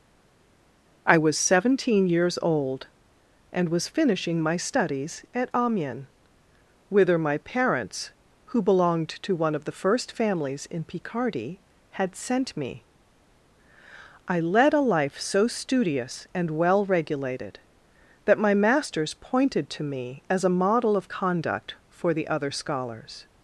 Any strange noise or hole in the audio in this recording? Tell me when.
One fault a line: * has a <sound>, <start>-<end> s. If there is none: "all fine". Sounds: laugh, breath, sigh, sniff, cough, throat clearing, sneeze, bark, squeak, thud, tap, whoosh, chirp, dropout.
all fine